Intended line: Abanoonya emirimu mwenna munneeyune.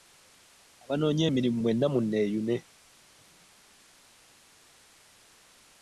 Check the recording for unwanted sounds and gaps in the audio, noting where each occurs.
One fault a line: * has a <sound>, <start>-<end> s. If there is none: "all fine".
all fine